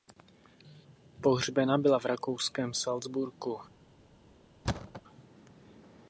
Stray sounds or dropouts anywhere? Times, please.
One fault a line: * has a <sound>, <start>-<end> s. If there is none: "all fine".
* has a thud, 4.6-5.0 s